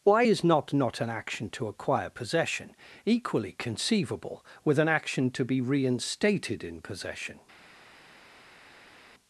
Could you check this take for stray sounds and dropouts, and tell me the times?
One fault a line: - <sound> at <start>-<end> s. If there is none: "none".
none